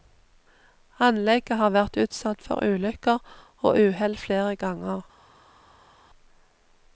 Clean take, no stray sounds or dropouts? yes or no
yes